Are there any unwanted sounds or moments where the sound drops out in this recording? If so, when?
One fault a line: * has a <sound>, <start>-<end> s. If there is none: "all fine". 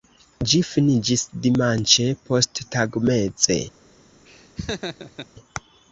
* has a laugh, 4.3-5.3 s